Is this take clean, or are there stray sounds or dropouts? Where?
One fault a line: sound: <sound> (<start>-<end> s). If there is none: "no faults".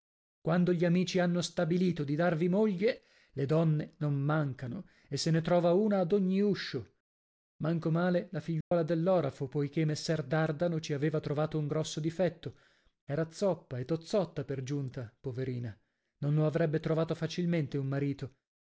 sound: dropout (8.6-8.7 s)